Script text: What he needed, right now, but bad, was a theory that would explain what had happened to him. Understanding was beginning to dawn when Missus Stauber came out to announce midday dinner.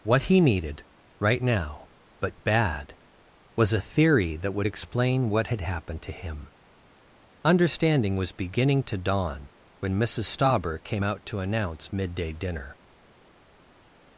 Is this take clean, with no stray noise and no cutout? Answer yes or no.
yes